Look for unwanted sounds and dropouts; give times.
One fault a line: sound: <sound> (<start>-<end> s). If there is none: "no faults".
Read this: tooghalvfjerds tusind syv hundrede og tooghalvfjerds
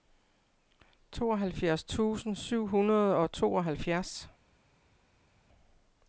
no faults